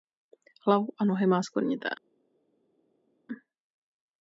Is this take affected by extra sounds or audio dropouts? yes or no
no